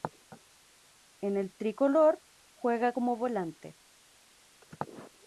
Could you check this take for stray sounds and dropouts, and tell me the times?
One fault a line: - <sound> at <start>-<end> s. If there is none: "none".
none